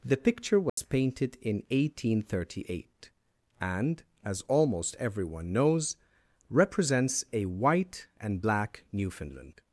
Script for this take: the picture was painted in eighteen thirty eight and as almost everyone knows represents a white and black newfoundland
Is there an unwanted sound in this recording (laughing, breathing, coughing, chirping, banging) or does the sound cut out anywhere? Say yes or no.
yes